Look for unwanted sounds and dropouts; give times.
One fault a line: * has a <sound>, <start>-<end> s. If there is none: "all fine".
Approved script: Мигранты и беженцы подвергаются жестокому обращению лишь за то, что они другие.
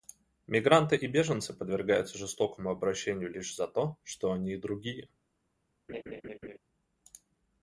* has a laugh, 5.9-6.6 s